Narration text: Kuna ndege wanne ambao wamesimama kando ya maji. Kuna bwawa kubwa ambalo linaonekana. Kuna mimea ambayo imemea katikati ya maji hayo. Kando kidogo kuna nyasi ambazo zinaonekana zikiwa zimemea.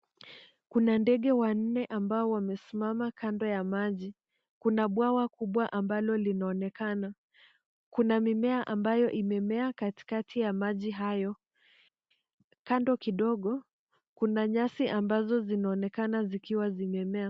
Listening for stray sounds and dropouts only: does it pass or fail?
pass